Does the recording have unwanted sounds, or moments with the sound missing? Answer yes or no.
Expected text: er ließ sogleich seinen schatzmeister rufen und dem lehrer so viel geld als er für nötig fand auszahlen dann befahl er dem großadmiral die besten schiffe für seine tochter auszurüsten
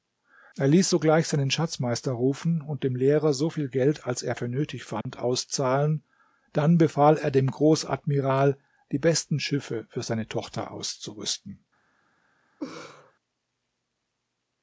yes